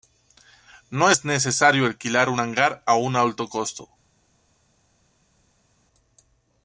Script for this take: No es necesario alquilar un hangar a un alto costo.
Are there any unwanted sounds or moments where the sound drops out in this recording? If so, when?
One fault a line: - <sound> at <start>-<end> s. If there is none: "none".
none